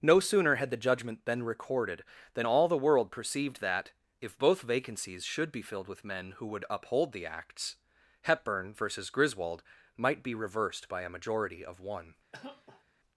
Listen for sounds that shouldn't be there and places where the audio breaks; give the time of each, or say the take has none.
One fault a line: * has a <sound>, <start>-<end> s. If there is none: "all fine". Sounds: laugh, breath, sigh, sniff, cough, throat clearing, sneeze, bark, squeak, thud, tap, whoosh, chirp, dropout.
* has a cough, 12.3-12.8 s